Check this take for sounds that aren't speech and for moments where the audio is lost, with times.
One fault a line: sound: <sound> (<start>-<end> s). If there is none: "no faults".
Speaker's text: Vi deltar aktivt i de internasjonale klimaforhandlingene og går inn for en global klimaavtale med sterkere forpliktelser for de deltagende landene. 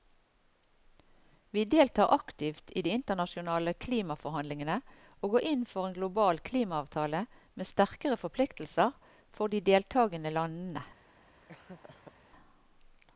sound: laugh (11.5-12.1 s)